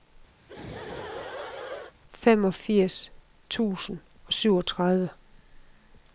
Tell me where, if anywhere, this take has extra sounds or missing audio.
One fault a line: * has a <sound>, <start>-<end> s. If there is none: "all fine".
* has a laugh, 0.4-1.9 s